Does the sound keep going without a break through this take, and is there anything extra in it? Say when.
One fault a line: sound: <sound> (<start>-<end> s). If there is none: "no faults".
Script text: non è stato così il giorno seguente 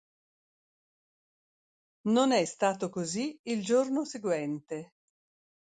no faults